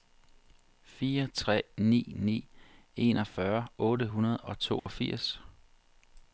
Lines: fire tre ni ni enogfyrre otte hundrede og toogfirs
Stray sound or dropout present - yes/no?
yes